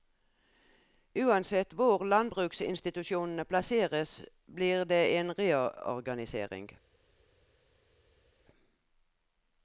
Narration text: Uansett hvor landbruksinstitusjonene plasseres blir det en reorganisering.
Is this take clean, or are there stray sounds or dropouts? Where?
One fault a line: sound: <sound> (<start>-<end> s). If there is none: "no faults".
no faults